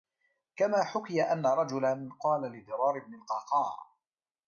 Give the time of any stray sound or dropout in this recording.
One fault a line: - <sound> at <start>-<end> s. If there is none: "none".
none